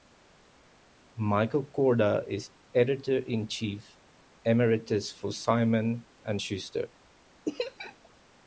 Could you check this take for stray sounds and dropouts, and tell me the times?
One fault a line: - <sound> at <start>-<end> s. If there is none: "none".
- laugh at 7.4-8.1 s